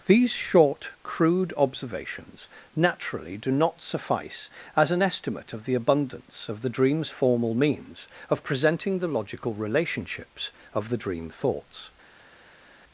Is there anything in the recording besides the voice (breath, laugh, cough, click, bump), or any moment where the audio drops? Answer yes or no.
no